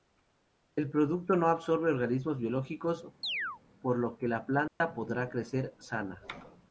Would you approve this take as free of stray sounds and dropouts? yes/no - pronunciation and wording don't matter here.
no